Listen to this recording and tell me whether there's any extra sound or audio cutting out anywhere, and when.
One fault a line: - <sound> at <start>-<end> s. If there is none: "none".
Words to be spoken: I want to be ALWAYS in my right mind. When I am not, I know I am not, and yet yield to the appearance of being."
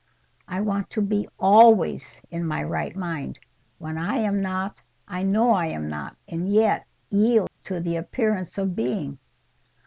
- dropout at 7.5-7.6 s